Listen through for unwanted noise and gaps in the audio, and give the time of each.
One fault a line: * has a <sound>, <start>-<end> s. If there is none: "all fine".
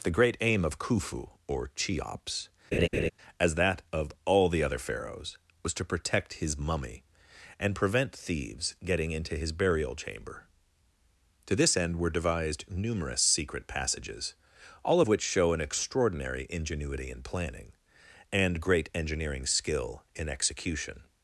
* has a laugh, 2.7-3.1 s